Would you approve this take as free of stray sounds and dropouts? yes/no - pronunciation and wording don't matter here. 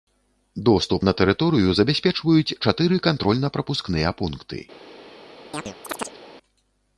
no